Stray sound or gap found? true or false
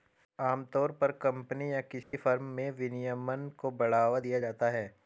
true